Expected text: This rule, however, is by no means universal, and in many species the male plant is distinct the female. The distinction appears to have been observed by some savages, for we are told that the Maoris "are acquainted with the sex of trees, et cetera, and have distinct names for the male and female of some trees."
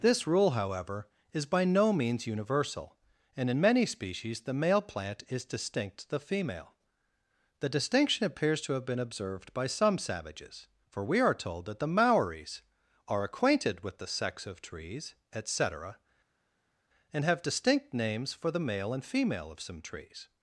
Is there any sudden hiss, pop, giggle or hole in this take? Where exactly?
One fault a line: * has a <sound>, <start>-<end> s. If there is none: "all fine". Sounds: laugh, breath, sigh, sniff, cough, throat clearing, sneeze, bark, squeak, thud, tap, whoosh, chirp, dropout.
all fine